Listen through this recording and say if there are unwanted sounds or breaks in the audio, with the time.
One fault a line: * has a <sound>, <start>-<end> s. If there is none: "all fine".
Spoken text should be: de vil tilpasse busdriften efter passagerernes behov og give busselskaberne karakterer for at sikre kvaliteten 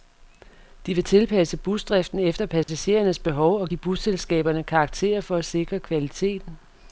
* has a dropout, 2.6-2.7 s